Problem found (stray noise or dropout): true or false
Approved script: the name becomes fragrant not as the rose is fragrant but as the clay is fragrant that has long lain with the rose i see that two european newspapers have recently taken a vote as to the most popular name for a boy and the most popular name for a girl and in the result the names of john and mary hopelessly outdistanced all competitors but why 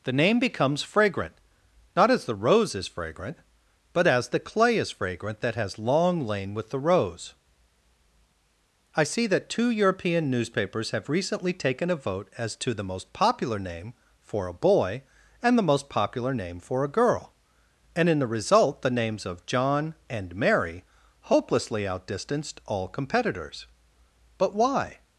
false